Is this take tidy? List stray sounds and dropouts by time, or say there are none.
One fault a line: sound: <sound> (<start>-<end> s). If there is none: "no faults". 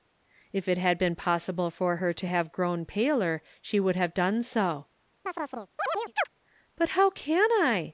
sound: chirp (5.3-6.3 s)